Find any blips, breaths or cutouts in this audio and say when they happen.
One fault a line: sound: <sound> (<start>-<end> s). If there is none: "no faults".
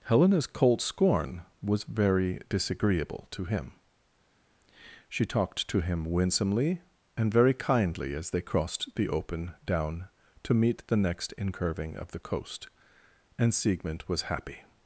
no faults